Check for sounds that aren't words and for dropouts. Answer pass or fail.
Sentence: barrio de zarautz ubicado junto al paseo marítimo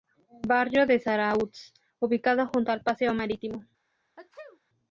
fail